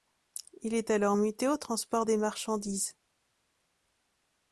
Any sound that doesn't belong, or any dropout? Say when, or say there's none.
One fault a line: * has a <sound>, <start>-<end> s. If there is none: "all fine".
all fine